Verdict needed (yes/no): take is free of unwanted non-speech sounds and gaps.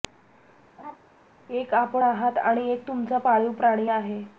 no